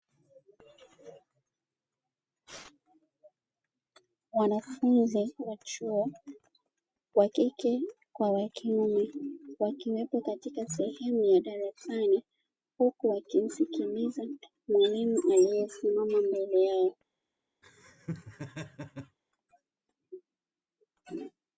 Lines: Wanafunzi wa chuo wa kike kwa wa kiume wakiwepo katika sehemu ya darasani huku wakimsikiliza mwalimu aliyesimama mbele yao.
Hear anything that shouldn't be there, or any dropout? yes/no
yes